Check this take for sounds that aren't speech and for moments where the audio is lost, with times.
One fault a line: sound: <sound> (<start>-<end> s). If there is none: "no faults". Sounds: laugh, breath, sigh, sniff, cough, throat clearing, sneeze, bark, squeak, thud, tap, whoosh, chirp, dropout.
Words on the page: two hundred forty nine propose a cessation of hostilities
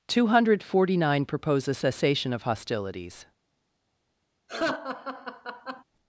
sound: laugh (4.5-5.8 s)